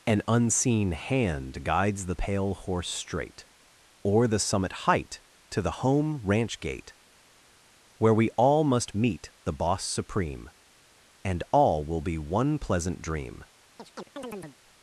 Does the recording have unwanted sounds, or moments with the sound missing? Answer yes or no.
yes